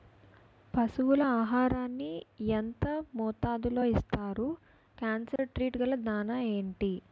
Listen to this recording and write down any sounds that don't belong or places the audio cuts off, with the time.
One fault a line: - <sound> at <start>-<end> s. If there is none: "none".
- dropout at 5.4-5.4 s